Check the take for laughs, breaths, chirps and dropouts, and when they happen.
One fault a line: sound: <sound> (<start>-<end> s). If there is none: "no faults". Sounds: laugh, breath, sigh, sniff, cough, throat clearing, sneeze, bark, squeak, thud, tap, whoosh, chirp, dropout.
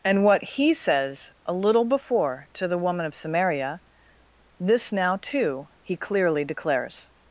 no faults